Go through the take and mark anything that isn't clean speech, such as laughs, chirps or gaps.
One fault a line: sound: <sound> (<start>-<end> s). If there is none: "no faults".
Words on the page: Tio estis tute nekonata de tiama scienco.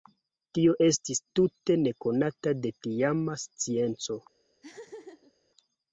sound: laugh (4.6-5.3 s)